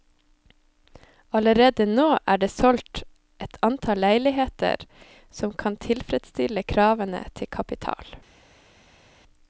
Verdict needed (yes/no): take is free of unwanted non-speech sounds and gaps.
yes